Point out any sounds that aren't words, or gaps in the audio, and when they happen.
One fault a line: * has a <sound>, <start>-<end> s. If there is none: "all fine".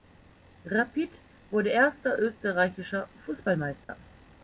* has a dropout, 3.8-3.9 s